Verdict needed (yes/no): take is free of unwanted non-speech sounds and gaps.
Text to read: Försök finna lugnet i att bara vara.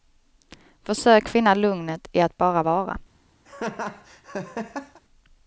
no